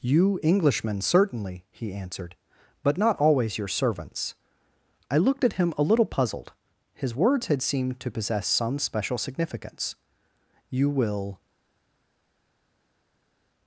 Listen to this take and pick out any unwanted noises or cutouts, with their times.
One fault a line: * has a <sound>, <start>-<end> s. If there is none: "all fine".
all fine